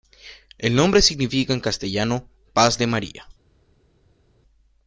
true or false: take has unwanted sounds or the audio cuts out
false